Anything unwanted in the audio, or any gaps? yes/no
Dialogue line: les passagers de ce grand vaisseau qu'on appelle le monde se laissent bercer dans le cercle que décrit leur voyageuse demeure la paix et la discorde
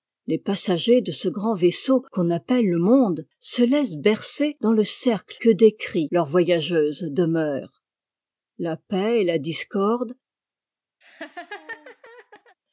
yes